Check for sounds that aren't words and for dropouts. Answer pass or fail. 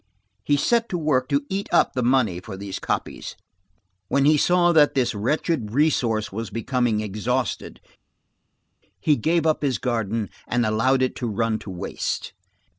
pass